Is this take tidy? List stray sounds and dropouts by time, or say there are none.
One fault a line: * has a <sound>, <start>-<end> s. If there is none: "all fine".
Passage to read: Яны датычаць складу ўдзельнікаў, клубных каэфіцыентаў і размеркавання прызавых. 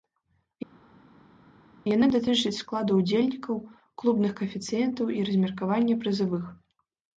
all fine